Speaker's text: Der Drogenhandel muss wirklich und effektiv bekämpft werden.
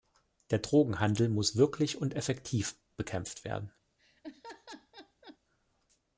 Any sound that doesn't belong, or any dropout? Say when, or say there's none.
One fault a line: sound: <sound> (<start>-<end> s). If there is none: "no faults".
sound: laugh (4.0-5.4 s)